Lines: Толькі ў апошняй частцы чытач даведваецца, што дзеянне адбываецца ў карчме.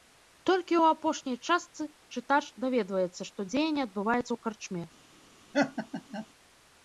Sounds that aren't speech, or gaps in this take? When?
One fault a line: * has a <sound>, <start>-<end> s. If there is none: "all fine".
* has a laugh, 5.5-6.3 s